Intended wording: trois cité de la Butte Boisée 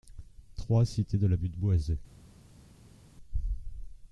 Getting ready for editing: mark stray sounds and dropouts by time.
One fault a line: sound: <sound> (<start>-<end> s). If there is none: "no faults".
no faults